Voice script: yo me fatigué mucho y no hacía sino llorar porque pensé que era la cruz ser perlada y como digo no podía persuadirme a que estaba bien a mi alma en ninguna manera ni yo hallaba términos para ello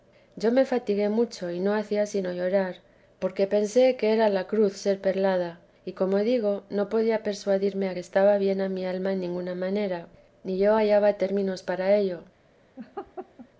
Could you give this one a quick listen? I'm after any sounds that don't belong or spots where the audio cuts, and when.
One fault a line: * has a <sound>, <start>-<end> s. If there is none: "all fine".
* has a laugh, 12.8-13.5 s